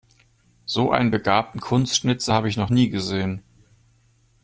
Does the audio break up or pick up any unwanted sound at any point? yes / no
no